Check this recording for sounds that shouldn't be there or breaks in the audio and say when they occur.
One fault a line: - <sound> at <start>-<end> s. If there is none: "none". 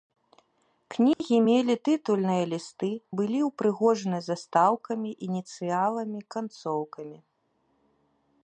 - dropout at 1.1-1.2 s